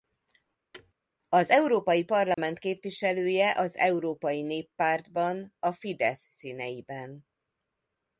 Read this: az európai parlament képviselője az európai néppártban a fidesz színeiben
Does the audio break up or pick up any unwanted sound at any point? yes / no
yes